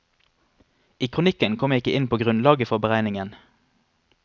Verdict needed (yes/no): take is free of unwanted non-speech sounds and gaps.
yes